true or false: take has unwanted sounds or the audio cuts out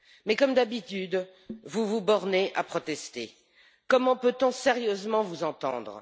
false